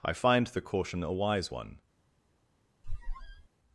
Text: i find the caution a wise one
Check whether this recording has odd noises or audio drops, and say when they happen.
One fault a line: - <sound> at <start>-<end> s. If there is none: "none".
- squeak at 2.8-3.5 s